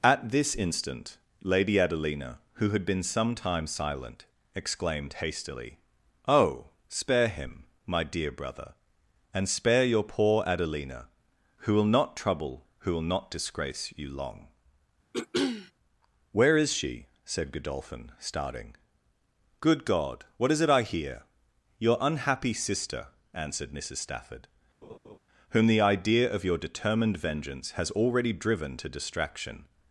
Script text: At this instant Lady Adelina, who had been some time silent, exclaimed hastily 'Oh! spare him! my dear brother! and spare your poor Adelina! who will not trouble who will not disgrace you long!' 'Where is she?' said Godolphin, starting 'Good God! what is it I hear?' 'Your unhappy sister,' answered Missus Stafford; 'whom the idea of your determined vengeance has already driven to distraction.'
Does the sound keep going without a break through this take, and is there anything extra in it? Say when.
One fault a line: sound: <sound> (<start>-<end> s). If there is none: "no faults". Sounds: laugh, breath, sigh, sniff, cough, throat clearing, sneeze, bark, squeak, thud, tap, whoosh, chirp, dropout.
sound: throat clearing (15.1-15.7 s)
sound: laugh (24.8-25.2 s)